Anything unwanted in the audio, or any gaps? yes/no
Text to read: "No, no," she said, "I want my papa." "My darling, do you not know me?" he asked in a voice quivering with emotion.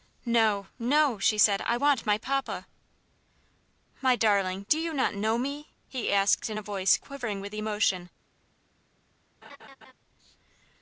yes